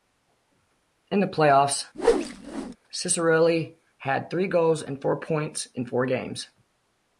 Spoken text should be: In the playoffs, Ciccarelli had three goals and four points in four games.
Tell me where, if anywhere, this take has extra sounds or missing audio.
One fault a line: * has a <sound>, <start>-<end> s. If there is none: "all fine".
* has a whoosh, 1.9-2.8 s